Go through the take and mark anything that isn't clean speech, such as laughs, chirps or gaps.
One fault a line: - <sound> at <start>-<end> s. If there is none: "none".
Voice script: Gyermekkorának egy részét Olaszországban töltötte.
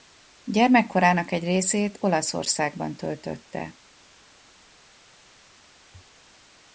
none